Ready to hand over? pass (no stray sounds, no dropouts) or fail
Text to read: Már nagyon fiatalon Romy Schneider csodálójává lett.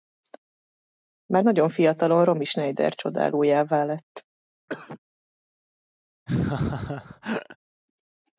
fail